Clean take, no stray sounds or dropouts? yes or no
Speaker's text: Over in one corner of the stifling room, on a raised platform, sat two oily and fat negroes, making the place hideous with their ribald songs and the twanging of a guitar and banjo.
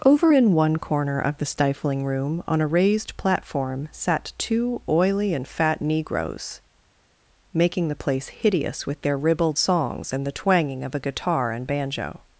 yes